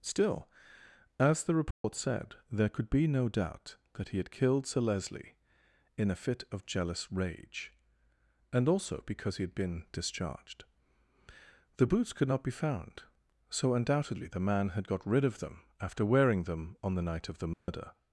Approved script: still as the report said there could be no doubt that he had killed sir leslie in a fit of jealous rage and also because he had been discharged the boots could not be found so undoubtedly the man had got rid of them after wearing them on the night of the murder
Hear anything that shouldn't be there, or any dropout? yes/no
yes